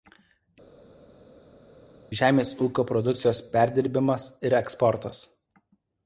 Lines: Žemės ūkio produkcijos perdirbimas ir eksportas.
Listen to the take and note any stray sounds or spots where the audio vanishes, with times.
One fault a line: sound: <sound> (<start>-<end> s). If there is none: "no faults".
no faults